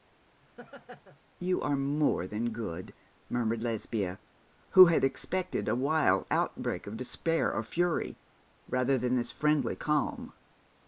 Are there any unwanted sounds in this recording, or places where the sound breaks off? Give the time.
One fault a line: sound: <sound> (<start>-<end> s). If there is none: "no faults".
sound: laugh (0.4-1.2 s)